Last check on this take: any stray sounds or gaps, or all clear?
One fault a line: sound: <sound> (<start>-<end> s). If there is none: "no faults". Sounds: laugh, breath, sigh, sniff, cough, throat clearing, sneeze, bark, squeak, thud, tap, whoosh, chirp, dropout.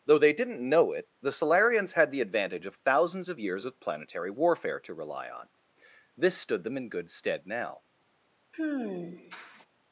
sound: sigh (8.5-9.7 s)